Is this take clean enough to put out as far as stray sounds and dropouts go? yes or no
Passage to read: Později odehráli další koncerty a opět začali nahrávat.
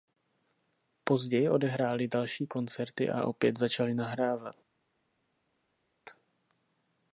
yes